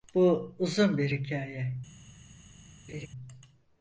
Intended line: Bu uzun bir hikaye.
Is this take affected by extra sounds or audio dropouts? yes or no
yes